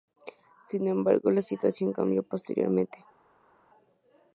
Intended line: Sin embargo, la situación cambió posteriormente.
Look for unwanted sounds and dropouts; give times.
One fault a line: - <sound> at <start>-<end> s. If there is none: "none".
none